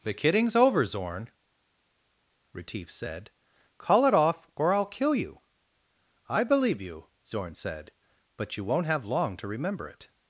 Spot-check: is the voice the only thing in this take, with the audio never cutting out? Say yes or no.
yes